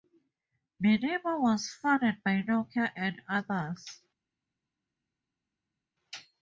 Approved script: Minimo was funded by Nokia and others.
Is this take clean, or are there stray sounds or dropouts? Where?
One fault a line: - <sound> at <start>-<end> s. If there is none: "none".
none